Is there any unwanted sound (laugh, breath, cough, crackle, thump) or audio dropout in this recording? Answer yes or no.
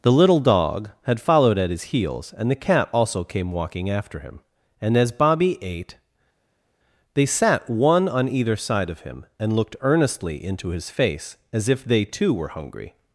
no